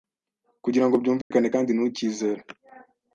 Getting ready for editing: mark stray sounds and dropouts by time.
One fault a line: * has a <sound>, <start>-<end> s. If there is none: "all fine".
* has a dropout, 1.2-1.3 s